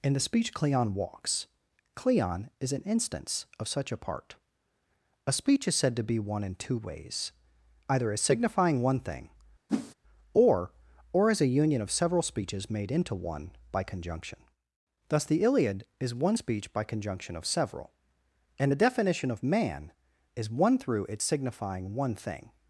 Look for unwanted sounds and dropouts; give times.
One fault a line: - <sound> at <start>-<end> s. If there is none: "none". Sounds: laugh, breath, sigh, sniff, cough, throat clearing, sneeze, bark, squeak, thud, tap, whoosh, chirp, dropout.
- whoosh at 9.7-9.9 s